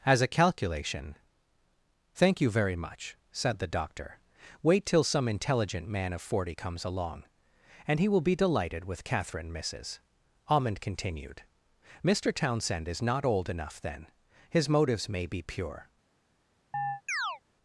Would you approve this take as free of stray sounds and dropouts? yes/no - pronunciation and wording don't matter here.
no